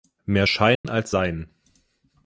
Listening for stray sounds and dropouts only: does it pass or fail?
fail